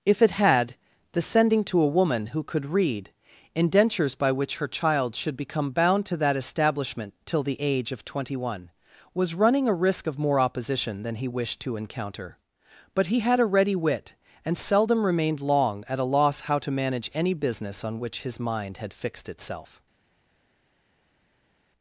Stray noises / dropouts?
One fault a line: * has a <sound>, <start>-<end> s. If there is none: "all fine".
all fine